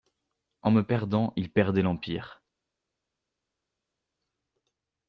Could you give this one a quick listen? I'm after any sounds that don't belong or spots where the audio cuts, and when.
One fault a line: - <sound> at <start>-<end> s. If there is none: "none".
none